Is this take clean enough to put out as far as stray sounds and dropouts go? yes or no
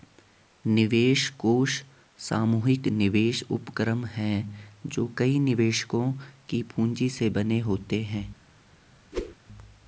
no